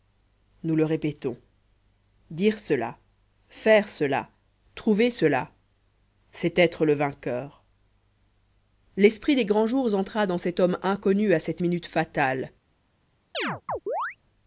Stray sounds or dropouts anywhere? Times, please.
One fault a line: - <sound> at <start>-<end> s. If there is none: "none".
- chirp at 13.3-14.2 s